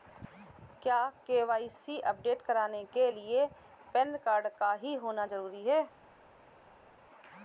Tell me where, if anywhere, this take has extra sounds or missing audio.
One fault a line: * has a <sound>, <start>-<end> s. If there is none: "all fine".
all fine